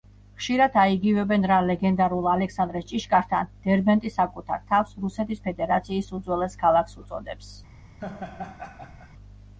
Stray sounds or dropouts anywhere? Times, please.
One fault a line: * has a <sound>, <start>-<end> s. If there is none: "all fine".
* has a laugh, 8.0-9.1 s